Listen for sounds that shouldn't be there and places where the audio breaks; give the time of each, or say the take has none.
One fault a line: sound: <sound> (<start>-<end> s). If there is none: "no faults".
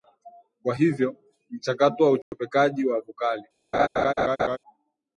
sound: dropout (2.2-2.3 s)
sound: laugh (3.7-4.6 s)